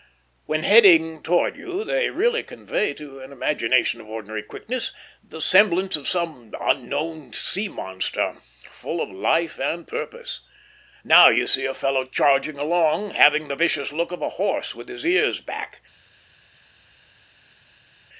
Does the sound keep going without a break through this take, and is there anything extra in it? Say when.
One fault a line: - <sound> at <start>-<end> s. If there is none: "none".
none